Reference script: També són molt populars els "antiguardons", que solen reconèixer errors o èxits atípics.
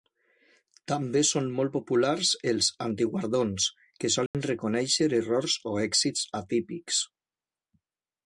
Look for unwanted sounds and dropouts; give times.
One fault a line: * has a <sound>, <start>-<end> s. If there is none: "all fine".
* has a dropout, 4.3-4.3 s